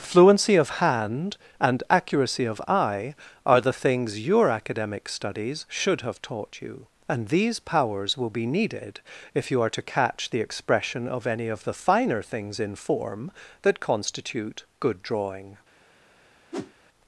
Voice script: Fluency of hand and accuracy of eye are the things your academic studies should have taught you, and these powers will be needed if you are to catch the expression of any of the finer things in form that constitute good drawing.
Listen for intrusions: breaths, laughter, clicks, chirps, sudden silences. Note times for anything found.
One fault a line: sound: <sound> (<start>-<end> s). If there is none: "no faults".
sound: whoosh (16.5-16.7 s)